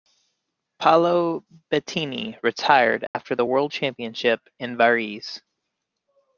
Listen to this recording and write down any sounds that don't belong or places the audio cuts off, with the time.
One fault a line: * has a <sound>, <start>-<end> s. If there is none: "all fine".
* has a dropout, 3.1-3.1 s